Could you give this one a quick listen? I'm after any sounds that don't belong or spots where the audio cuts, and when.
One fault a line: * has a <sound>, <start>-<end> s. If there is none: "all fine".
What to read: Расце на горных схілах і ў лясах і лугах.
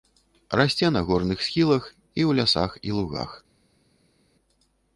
all fine